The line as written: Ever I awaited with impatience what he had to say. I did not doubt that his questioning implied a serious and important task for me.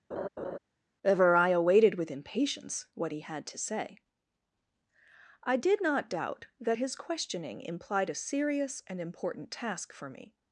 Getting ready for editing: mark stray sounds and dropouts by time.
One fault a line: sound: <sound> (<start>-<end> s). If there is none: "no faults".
sound: laugh (0.1-0.6 s)